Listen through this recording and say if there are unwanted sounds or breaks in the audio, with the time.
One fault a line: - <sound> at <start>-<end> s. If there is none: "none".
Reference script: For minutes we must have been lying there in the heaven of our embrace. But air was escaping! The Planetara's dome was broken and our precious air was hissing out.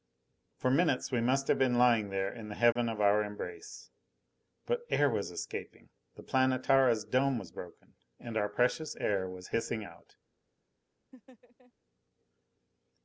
- dropout at 2.7-2.8 s
- laugh at 11.1-11.7 s